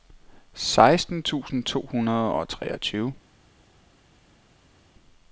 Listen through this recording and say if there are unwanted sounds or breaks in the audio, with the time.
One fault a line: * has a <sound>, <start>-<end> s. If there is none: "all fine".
all fine